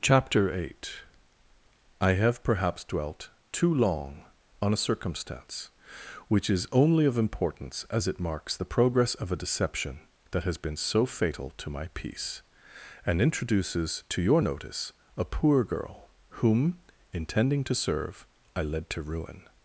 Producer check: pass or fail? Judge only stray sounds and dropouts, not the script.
pass